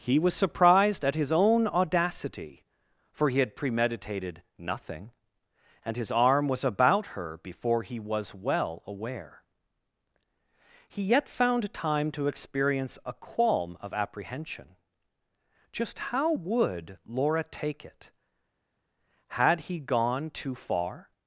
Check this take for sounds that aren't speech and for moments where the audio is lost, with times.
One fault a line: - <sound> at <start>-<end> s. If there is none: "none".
none